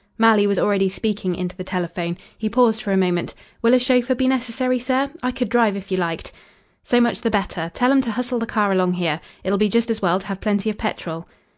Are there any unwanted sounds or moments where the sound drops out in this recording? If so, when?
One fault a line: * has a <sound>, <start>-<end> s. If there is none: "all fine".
all fine